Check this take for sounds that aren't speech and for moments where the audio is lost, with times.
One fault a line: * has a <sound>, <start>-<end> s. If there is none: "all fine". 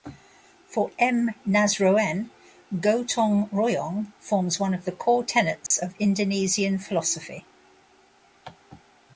* has a dropout, 5.7-5.7 s